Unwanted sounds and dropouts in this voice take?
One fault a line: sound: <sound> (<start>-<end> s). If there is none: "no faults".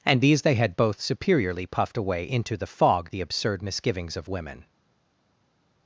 no faults